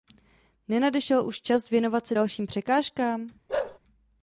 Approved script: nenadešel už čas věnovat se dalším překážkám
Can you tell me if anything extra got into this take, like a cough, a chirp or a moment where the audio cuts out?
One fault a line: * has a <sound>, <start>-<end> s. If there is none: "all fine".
* has a bark, 3.5-3.8 s